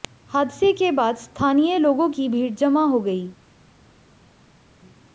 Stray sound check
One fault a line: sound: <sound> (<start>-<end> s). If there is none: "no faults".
no faults